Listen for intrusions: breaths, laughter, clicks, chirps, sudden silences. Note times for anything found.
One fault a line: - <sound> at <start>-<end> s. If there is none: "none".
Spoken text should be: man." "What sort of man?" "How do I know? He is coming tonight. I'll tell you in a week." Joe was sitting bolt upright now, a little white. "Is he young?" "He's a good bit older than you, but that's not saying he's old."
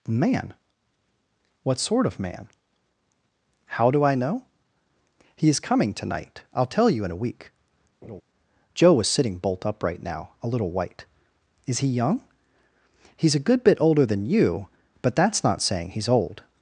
- laugh at 8.0-8.2 s